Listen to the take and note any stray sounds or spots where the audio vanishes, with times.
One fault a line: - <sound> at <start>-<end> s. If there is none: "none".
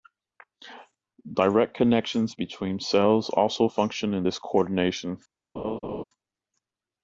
- laugh at 5.6-6.0 s